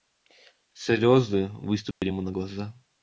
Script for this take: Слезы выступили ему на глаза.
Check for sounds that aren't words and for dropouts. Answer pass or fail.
fail